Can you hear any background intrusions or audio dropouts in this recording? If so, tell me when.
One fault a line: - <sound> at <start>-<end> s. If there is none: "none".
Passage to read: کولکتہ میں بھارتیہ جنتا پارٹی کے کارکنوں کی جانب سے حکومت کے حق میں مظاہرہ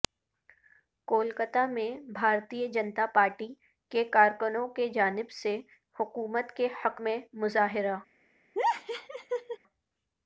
- laugh at 8.6-9.6 s